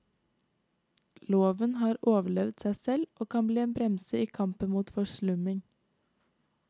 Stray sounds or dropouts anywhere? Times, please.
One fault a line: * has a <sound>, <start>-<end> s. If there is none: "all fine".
all fine